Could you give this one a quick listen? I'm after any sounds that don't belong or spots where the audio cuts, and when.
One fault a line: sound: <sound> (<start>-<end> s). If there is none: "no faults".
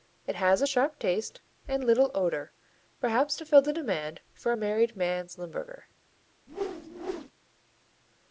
sound: whoosh (6.5-7.3 s)